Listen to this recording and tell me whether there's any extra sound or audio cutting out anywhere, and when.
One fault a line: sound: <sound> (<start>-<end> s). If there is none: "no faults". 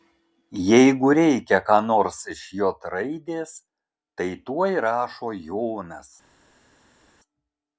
no faults